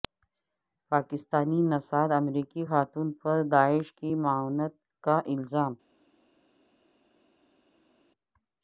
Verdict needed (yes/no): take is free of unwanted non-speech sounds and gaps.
yes